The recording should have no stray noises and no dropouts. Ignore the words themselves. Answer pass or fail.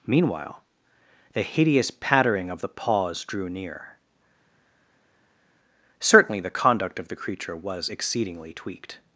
pass